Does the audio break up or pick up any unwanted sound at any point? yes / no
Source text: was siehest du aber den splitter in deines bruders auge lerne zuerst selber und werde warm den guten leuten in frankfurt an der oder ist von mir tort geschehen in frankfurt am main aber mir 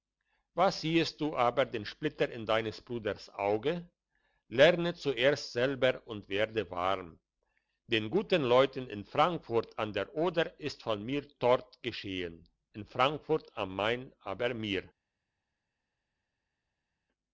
no